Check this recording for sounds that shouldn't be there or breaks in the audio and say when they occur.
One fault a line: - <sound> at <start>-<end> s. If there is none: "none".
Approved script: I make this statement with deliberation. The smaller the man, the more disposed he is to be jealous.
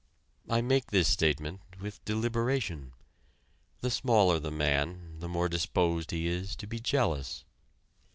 none